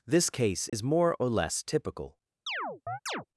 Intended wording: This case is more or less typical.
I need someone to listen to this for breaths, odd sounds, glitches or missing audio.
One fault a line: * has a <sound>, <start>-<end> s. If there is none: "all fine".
* has a dropout, 0.7-0.7 s
* has a chirp, 2.5-3.3 s